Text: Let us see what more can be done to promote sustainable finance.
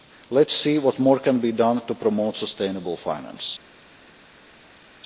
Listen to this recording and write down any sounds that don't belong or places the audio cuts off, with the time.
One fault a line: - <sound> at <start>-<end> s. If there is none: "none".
none